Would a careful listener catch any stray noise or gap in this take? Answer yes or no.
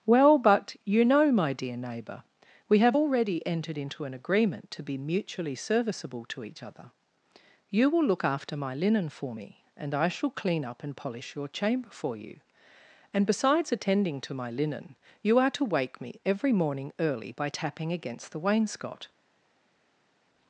no